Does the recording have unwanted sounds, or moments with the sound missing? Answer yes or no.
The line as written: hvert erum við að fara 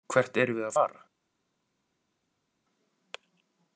no